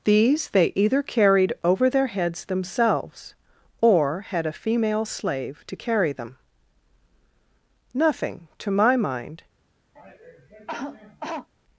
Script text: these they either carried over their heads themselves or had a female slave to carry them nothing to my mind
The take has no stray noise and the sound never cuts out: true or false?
false